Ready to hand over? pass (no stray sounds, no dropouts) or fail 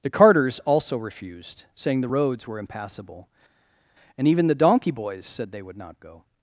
pass